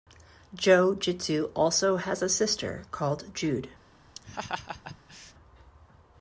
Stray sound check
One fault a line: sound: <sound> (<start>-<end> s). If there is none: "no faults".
sound: laugh (4.2-5.3 s)